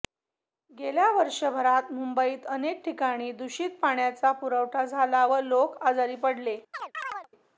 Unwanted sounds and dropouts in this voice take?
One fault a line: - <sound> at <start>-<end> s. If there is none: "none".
- chirp at 6.7-7.3 s